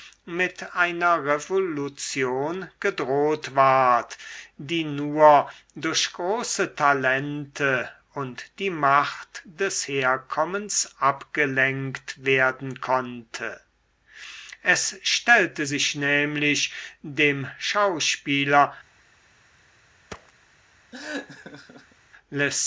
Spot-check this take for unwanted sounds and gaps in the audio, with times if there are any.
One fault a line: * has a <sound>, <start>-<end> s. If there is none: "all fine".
* has a thud, 20.1-20.3 s
* has a laugh, 20.9-22.0 s